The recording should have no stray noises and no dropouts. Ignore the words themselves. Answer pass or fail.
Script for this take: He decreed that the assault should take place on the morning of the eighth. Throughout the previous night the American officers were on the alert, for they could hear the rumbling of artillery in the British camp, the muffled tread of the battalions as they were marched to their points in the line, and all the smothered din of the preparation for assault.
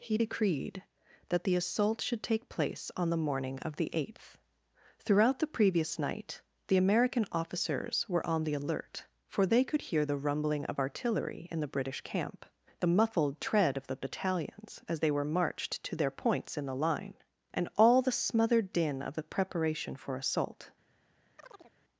fail